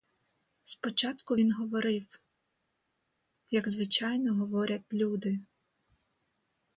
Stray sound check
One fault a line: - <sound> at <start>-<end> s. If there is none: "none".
none